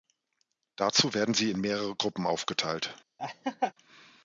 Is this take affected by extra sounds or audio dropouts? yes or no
yes